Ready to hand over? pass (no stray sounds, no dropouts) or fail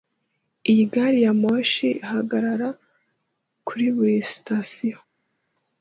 pass